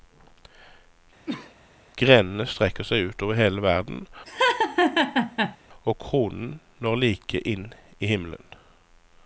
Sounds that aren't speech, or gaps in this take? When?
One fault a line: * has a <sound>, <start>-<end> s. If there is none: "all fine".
* has a cough, 1.3-1.5 s
* has a laugh, 4.3-5.6 s